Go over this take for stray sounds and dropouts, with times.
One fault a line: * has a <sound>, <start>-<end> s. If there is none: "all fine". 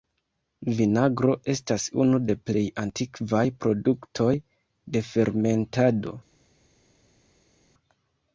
all fine